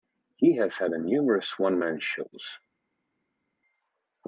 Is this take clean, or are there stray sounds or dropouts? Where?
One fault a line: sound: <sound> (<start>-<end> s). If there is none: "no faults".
no faults